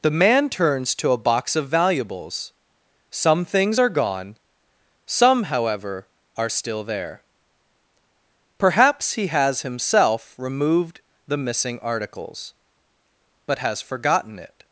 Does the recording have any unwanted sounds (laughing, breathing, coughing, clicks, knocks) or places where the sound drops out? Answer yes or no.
no